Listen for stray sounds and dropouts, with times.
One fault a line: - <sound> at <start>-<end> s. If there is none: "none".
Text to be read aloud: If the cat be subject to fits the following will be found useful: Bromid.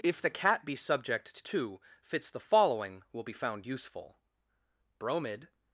none